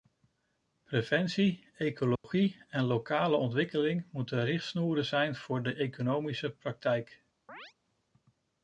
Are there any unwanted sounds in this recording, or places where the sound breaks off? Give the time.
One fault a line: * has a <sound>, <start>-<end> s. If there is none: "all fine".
* has a dropout, 2.2-2.2 s
* has a chirp, 7.5-7.7 s